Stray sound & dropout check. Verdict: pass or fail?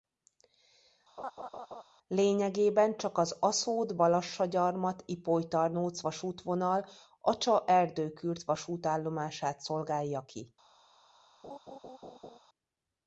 fail